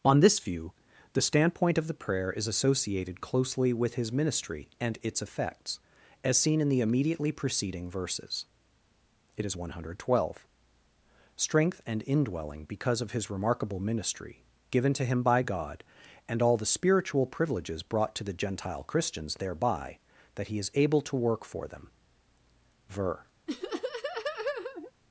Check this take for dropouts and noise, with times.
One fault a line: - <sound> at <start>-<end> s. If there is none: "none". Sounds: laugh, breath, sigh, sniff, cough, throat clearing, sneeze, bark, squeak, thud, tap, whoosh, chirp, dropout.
- laugh at 23.5-24.9 s